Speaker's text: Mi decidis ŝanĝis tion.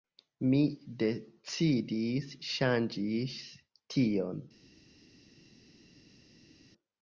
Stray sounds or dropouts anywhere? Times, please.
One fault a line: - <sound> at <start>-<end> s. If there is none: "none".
none